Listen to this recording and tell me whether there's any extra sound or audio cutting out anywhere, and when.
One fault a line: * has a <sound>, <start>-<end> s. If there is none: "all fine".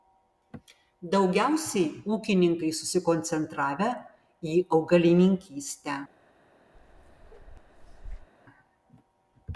* has a bark, 6.7-8.3 s